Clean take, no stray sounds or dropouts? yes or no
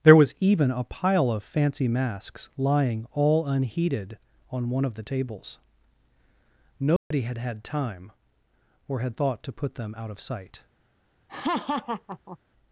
no